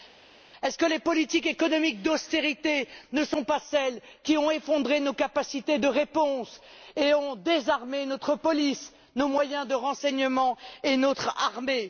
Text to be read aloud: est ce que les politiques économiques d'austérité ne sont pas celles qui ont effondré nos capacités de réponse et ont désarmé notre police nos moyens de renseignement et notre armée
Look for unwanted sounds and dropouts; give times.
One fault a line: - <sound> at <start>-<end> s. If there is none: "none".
none